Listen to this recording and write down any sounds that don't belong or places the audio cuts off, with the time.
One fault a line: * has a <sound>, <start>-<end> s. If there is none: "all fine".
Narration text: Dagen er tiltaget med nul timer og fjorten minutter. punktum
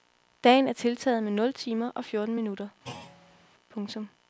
* has a thud, 2.8-3.5 s